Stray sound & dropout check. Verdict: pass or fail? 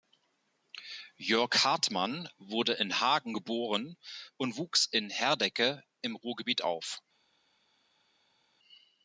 pass